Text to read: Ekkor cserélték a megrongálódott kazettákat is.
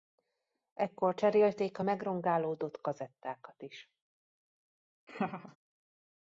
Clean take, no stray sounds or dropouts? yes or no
no